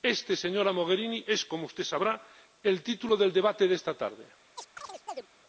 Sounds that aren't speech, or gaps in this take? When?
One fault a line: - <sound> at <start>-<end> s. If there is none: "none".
- chirp at 4.6-5.3 s